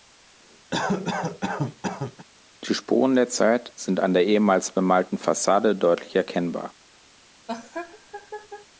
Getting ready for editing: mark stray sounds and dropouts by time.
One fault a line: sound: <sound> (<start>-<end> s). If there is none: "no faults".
sound: cough (0.7-2.3 s)
sound: laugh (7.5-8.7 s)